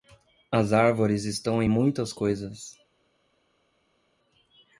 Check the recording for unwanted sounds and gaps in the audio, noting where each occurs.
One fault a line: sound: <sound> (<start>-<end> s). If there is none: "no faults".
no faults